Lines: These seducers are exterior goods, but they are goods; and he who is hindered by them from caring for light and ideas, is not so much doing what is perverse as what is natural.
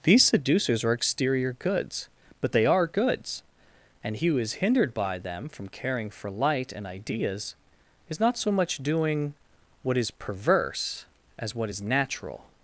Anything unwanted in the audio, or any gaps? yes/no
no